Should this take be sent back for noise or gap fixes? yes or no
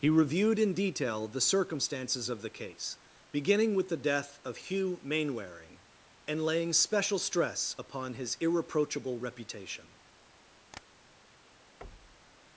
yes